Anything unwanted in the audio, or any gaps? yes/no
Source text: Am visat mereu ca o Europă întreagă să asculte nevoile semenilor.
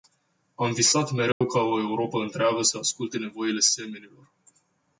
yes